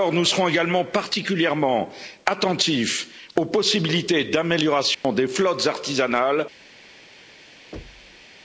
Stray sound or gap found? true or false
true